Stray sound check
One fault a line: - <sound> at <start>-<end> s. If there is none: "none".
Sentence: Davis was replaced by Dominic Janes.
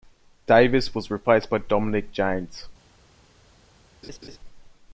- laugh at 4.0-4.4 s